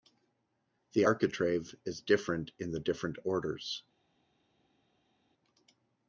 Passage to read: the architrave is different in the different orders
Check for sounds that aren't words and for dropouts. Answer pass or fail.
pass